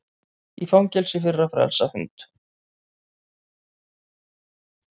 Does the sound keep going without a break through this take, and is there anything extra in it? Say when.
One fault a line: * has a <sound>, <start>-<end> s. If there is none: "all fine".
all fine